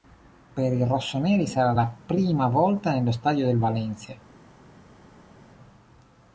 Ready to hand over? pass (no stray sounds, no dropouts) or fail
pass